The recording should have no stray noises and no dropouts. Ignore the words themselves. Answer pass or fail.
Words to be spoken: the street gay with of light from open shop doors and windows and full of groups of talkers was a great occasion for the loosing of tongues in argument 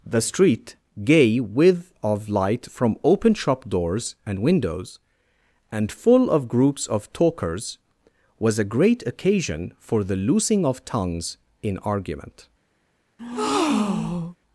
fail